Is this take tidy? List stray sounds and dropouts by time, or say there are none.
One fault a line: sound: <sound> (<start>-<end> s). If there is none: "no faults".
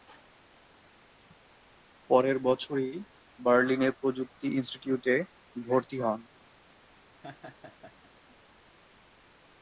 sound: laugh (7.2-8.1 s)